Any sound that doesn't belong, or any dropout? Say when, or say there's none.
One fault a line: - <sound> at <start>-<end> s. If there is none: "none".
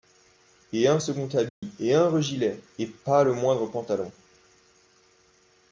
- dropout at 1.5-1.6 s